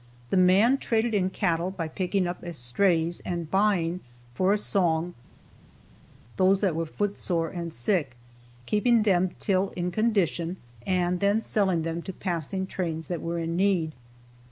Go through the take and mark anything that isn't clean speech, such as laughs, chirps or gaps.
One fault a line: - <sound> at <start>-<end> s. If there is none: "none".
none